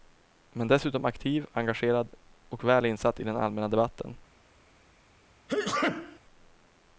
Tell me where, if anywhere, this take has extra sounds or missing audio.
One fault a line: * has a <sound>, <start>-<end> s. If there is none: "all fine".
* has a sneeze, 5.5-6.2 s